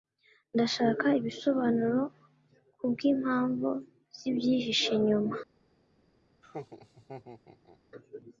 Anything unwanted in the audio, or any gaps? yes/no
yes